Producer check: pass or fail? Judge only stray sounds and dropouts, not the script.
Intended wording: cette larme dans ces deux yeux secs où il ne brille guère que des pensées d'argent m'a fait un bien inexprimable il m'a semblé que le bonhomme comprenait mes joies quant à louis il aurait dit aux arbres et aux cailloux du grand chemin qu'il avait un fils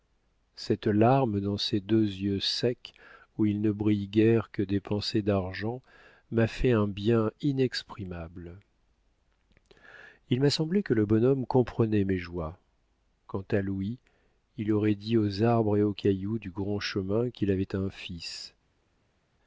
pass